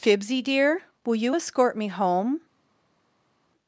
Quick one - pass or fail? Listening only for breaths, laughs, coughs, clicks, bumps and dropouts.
pass